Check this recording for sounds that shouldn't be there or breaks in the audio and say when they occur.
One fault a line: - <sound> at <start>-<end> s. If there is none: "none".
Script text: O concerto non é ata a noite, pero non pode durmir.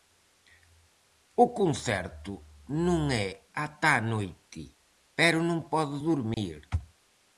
- dropout at 6.3-6.4 s